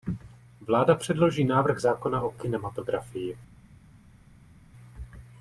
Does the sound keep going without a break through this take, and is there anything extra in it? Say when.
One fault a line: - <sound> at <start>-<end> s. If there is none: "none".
none